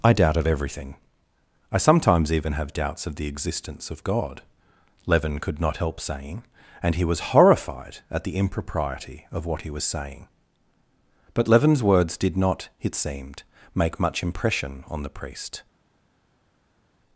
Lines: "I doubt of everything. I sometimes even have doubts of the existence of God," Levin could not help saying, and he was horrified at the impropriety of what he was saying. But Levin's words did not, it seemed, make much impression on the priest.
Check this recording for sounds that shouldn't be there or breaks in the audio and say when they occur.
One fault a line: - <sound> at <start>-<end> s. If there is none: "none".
none